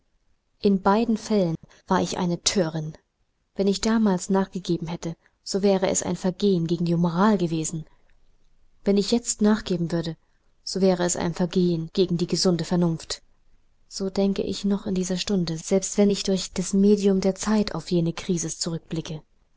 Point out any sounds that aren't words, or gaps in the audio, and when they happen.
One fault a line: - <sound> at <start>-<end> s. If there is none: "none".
- dropout at 1.6-1.6 s